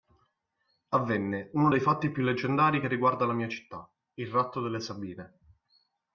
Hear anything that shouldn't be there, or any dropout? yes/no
no